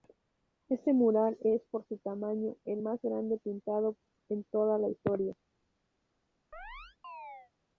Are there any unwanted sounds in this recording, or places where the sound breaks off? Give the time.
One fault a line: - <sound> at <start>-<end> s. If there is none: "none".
- chirp at 6.5-7.5 s